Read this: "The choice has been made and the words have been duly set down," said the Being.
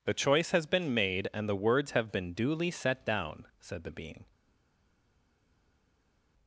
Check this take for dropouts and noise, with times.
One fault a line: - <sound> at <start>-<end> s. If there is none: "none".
none